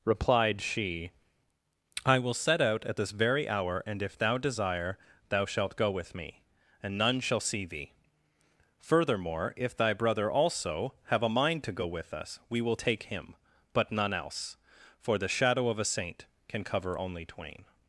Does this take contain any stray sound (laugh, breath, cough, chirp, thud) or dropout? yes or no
no